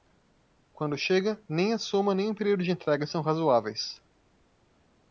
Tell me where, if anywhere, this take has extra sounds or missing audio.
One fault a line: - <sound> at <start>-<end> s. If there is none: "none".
none